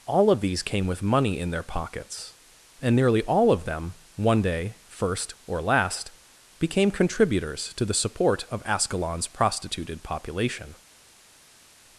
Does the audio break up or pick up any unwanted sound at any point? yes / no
no